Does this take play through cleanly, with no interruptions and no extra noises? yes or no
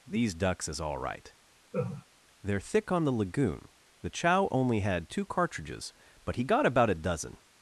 no